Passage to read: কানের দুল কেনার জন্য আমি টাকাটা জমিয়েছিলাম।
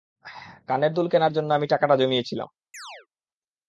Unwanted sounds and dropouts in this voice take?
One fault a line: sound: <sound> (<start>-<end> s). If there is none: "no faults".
sound: chirp (2.7-3.1 s)